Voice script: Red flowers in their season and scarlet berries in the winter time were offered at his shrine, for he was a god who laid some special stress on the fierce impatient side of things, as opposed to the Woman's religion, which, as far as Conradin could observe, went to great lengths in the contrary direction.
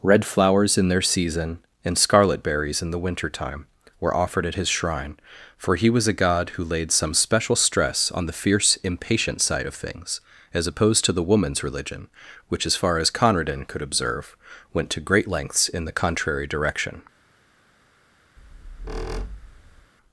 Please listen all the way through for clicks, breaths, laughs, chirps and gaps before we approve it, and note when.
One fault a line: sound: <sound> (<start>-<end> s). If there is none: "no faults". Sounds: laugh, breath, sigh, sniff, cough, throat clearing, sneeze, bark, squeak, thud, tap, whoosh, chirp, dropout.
sound: squeak (18.4-19.9 s)